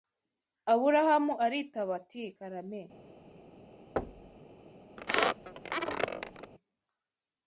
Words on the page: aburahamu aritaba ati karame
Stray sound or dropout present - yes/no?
yes